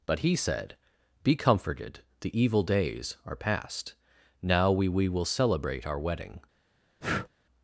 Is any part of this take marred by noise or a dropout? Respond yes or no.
yes